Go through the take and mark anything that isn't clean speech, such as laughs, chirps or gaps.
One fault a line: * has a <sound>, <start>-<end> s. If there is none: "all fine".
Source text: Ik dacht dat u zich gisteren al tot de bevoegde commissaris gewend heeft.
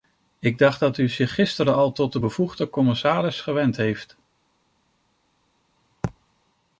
all fine